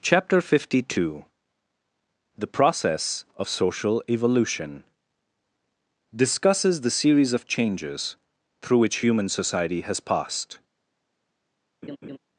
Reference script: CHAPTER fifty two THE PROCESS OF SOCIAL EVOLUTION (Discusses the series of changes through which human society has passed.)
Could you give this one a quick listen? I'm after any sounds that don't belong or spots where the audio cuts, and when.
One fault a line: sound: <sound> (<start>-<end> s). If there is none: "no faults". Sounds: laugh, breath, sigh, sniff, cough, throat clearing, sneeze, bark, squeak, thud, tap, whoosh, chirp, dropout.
sound: laugh (11.8-12.2 s)